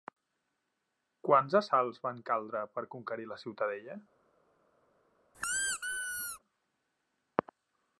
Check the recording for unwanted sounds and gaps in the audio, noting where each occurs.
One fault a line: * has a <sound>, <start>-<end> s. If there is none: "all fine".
* has a squeak, 5.3-6.4 s